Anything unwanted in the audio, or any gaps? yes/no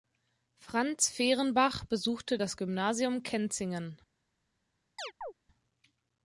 yes